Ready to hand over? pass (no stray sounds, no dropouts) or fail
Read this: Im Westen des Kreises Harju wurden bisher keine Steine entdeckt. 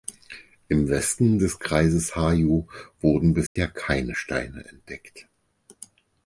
fail